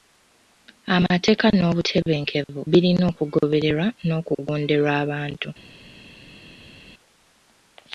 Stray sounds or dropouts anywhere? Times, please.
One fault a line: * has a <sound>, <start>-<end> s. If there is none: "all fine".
all fine